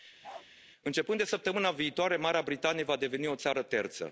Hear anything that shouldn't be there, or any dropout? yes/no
yes